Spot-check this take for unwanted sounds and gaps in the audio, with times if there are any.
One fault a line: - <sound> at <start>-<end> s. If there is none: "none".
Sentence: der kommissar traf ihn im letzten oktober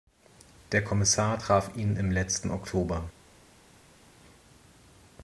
none